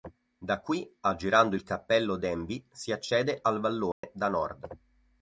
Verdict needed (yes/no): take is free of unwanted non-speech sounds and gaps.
no